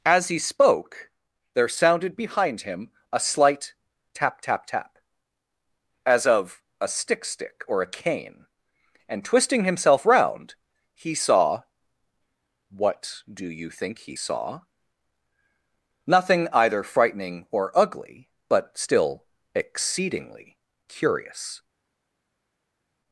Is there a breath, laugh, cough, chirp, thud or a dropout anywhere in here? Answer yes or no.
no